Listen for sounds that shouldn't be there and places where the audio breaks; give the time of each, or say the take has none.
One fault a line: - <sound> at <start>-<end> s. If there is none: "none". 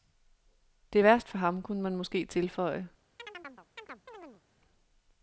- chirp at 3.2-4.4 s